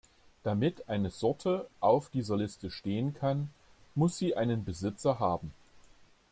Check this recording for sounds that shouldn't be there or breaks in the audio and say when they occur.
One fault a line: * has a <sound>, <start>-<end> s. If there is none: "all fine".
all fine